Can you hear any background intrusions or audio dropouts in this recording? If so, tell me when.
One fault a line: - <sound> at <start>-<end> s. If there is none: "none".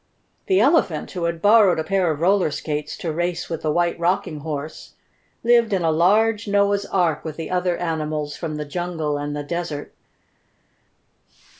none